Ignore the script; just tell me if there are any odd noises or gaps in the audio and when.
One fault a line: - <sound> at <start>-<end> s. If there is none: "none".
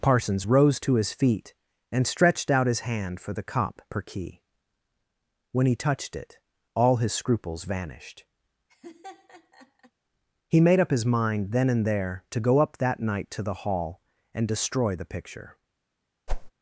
- laugh at 8.7-9.9 s
- whoosh at 16.3-16.5 s